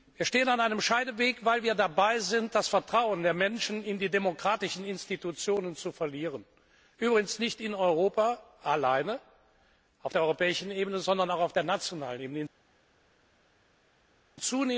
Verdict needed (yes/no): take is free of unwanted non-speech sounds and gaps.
yes